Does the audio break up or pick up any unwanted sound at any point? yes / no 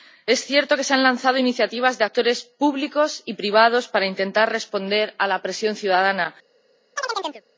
yes